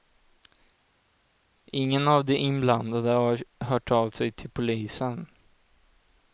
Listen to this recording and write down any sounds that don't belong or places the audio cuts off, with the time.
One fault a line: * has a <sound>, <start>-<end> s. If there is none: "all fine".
all fine